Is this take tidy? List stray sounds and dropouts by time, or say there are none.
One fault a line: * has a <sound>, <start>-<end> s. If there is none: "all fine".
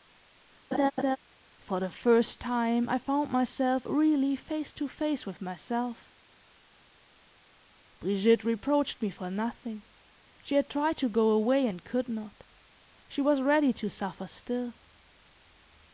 * has a laugh, 0.7-1.2 s